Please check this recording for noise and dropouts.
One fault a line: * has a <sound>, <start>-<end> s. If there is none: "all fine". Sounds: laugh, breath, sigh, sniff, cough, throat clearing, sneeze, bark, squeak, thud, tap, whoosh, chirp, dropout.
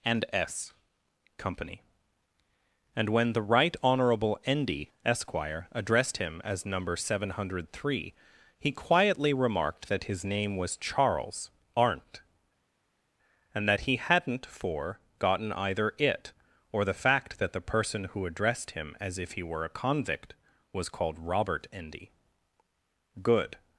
all fine